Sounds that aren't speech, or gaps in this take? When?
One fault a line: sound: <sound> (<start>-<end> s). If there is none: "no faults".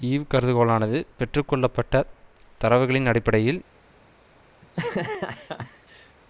sound: laugh (4.6-6.2 s)